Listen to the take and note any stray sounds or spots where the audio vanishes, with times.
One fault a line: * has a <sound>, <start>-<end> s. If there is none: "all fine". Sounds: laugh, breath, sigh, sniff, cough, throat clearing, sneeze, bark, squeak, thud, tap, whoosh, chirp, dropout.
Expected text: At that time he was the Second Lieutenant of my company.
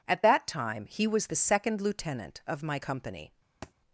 * has a thud, 3.6-3.7 s